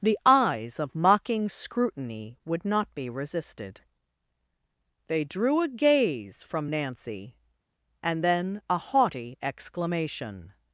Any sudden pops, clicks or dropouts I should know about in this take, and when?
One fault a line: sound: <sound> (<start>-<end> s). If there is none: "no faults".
no faults